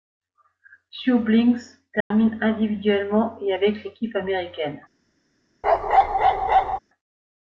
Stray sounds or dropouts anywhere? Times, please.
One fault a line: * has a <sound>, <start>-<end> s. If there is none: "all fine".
* has a dropout, 2.0-2.1 s
* has a bark, 5.6-6.8 s